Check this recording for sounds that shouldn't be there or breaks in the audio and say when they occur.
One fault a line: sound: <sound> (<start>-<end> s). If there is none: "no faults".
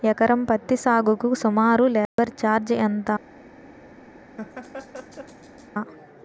sound: dropout (2.1-2.2 s)
sound: laugh (4.4-5.7 s)